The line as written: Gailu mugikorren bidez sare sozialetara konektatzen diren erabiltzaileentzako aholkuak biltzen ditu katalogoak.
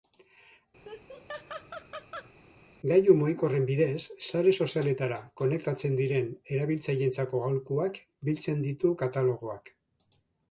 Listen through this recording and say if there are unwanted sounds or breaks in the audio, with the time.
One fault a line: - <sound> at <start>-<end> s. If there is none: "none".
- laugh at 0.8-2.3 s